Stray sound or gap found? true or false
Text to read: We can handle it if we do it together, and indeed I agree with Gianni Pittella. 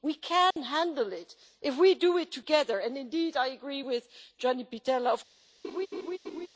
true